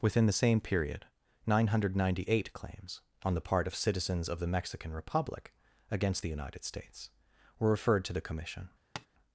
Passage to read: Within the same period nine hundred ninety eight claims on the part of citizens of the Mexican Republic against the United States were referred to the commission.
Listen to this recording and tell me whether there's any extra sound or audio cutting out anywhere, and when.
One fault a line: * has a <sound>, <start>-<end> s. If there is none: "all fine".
* has a tap, 9.0-9.1 s